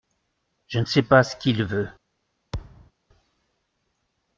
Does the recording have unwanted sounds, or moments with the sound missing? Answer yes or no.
yes